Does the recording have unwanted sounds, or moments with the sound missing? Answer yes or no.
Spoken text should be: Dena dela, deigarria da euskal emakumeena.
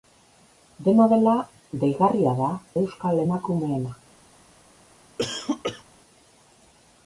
yes